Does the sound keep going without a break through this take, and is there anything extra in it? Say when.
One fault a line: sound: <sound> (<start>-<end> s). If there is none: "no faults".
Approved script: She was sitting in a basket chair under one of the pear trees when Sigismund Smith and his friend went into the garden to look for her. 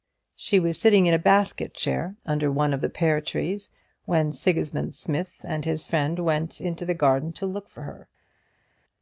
no faults